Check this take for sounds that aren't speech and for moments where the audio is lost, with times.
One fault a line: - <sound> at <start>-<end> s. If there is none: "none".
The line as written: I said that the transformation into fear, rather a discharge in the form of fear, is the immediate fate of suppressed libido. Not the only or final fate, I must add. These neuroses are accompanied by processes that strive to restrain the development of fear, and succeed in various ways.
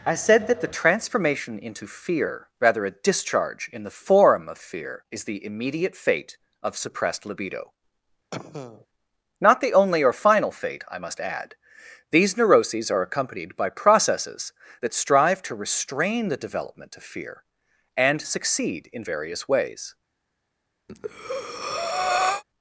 - cough at 8.3-8.9 s
- breath at 20.9-22.4 s